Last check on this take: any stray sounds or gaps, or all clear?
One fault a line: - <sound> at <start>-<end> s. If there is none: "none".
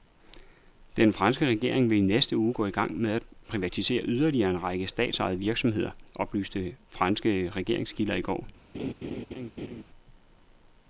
- laugh at 8.7-9.8 s